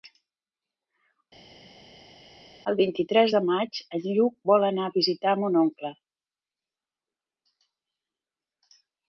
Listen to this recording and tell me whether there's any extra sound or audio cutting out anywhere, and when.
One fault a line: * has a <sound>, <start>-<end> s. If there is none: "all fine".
all fine